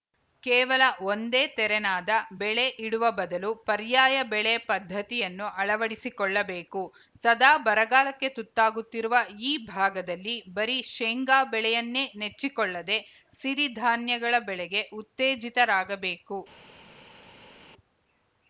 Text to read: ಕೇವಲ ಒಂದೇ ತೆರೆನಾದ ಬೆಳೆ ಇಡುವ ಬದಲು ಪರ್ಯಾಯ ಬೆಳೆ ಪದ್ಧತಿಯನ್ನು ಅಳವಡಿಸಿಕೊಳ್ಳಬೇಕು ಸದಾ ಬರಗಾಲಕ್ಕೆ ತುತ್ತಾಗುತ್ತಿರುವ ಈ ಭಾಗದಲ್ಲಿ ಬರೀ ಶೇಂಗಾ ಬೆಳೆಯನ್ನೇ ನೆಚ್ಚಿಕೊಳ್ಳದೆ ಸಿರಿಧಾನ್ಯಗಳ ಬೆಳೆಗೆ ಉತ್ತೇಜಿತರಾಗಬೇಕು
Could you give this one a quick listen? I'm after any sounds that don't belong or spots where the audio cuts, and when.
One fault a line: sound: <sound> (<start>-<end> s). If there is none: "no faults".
no faults